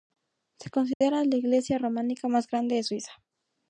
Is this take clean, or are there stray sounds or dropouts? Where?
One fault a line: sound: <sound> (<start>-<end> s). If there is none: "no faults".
sound: dropout (0.9-1.0 s)